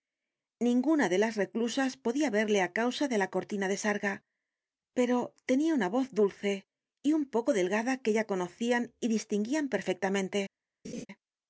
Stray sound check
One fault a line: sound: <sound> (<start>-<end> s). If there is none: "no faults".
sound: laugh (10.8-11.1 s)